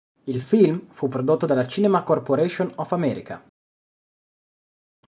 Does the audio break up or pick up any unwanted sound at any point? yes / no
no